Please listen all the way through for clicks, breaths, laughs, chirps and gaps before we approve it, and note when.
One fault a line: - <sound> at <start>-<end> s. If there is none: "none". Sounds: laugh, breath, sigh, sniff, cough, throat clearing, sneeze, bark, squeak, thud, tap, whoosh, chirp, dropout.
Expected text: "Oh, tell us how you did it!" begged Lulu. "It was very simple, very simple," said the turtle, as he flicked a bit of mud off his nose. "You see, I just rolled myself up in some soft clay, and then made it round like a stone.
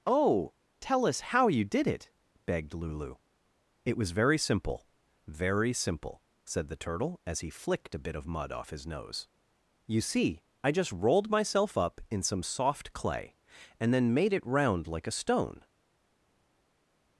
none